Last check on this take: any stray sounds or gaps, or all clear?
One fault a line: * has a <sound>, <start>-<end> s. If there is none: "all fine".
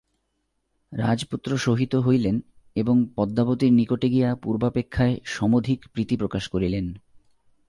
all fine